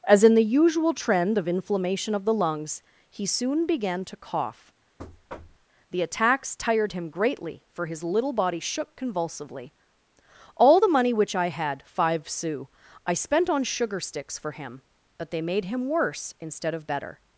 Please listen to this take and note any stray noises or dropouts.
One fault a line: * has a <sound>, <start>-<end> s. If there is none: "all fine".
* has a thud, 5.0-5.7 s